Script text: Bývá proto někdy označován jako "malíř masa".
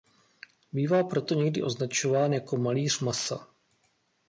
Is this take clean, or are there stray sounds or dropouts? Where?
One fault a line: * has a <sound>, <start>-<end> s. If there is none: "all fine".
all fine